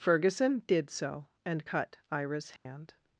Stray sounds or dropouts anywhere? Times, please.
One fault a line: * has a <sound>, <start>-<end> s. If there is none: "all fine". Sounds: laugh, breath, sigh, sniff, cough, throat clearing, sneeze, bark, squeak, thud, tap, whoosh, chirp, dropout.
* has a dropout, 2.6-2.7 s